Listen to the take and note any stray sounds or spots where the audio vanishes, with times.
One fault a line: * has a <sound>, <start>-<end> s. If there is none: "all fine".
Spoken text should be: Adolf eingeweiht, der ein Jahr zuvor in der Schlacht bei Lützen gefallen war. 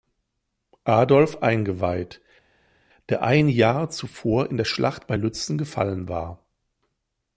all fine